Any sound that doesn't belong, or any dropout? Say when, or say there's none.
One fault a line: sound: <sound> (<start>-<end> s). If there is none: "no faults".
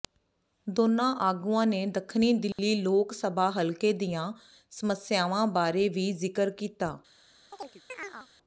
sound: dropout (2.5-2.6 s)
sound: chirp (7.5-8.3 s)